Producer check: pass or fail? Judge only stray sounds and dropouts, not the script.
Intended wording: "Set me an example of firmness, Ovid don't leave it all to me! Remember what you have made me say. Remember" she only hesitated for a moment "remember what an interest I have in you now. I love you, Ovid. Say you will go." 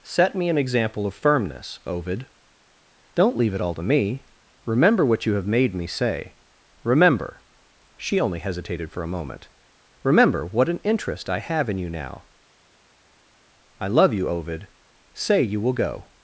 pass